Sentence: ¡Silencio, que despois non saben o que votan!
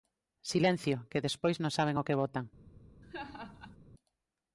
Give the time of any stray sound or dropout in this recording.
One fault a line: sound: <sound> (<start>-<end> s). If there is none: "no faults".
sound: laugh (3.0-3.8 s)